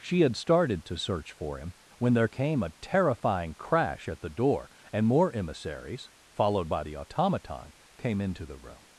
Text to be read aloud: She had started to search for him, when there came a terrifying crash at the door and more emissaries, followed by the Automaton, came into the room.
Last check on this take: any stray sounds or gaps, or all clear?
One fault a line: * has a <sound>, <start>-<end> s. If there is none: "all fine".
all fine